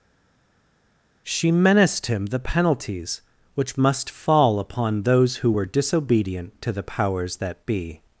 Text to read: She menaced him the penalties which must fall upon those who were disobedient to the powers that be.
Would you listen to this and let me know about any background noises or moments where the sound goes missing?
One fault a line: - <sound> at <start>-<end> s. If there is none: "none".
none